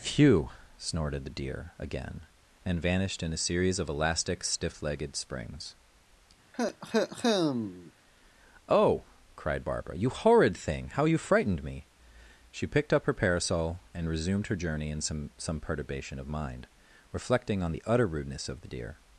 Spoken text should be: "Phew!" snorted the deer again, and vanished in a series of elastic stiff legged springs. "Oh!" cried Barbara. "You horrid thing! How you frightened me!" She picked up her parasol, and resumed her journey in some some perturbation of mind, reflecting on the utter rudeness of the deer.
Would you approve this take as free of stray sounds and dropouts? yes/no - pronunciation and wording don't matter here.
no